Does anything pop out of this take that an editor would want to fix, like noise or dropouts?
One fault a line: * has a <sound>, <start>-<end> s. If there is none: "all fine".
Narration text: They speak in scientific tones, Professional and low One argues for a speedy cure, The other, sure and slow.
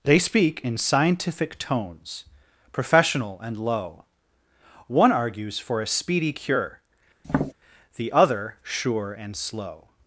* has a tap, 7.2-7.5 s